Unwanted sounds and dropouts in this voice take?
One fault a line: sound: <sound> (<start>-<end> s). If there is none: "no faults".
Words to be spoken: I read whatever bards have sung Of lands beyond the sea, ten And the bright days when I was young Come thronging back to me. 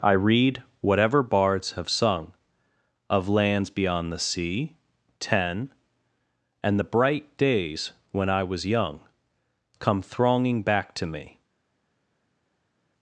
no faults